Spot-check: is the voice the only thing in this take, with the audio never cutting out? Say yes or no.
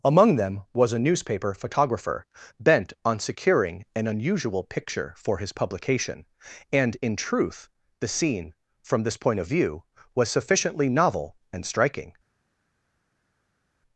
yes